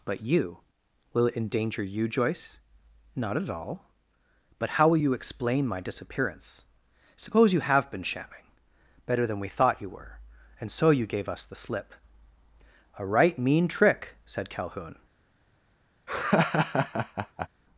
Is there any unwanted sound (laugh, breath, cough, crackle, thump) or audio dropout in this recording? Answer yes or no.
yes